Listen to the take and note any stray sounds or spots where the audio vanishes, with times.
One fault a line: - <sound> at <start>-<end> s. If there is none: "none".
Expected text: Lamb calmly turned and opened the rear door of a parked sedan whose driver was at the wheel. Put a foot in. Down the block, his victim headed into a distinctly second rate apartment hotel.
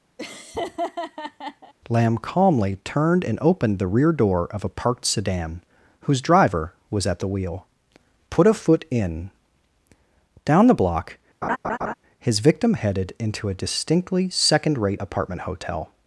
- laugh at 0.2-1.7 s
- laugh at 11.4-11.9 s